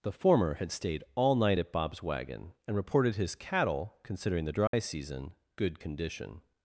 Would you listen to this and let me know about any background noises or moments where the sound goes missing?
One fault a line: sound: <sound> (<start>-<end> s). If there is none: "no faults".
sound: dropout (4.7-4.7 s)